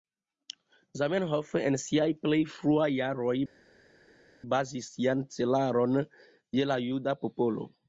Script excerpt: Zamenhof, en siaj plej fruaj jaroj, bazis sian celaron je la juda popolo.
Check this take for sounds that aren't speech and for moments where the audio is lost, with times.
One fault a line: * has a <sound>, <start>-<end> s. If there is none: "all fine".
all fine